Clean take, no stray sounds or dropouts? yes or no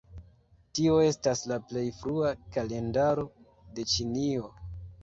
yes